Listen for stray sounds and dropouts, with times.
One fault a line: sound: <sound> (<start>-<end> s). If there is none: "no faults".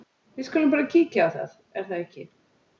no faults